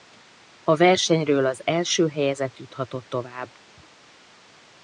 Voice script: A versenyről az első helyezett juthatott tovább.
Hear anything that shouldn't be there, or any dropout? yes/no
no